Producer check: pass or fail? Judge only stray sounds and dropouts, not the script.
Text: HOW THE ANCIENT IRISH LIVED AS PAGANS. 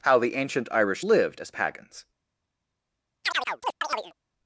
fail